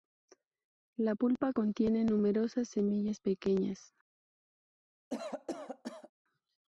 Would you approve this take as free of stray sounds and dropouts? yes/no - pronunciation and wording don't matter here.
no